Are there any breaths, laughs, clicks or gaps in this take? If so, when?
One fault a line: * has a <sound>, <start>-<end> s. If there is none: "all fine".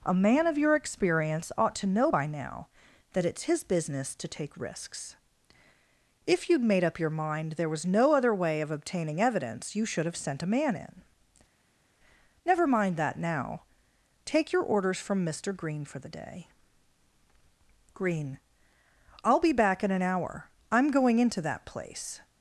all fine